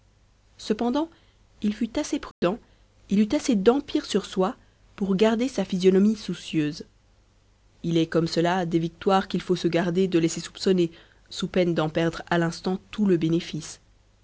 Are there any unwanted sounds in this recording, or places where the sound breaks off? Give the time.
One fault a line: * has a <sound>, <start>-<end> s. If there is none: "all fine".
* has a dropout, 2.3-2.4 s